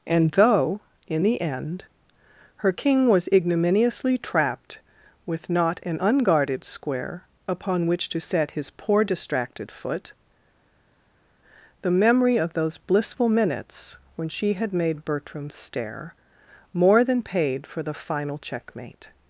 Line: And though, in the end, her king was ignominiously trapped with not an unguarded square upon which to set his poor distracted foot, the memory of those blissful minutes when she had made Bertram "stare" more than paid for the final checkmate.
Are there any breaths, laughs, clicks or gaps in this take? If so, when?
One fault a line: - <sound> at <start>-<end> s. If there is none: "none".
none